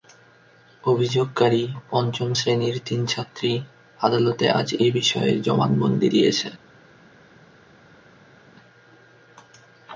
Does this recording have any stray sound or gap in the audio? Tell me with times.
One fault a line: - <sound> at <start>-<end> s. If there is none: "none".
none